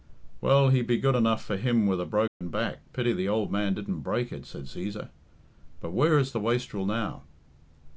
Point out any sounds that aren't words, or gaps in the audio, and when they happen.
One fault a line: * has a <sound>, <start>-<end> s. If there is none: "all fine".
* has a dropout, 2.3-2.4 s